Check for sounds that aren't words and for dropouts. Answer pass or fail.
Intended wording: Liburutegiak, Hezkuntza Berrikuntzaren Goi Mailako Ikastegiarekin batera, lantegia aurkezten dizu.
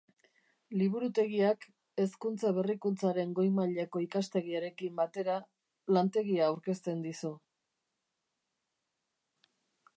pass